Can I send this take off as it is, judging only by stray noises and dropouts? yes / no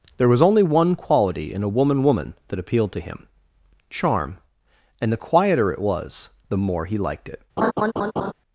no